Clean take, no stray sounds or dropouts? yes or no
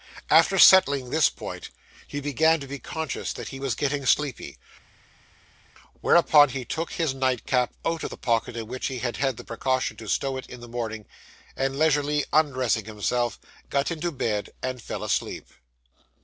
yes